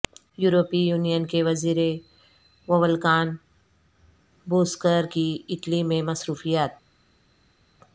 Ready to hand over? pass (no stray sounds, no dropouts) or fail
pass